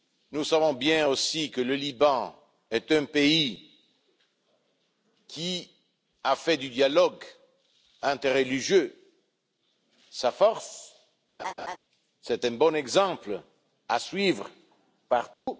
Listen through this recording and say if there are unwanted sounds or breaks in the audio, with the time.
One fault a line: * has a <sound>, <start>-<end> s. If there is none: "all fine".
* has a laugh, 11.4-11.8 s
* has a dropout, 15.3-15.5 s